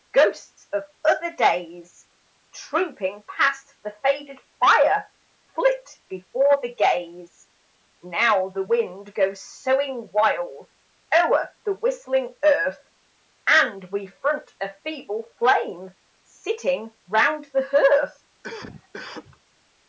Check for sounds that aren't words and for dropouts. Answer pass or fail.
fail